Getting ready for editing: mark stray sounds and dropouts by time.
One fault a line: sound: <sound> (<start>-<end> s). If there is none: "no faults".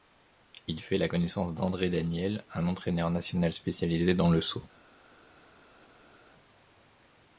no faults